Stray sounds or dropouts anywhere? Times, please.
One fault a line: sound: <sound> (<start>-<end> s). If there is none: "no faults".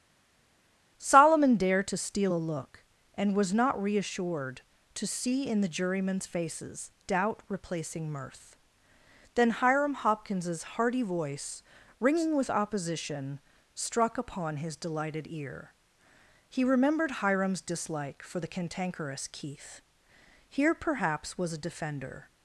no faults